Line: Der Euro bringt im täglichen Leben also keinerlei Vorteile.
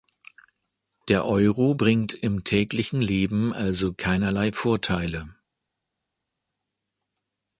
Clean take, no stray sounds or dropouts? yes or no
yes